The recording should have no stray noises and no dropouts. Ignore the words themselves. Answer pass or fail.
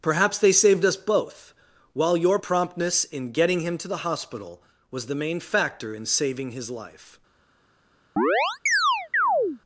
fail